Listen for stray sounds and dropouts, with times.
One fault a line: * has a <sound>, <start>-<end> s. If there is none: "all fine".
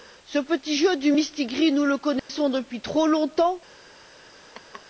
* has a dropout, 2.2-2.3 s
* has a laugh, 4.5-4.8 s